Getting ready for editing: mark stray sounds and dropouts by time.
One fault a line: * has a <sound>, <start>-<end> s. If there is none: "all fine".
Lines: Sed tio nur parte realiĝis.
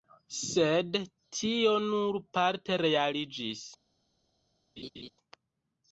* has a laugh, 4.8-5.1 s